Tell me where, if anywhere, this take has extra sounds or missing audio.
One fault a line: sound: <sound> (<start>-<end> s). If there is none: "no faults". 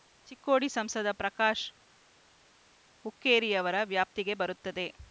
no faults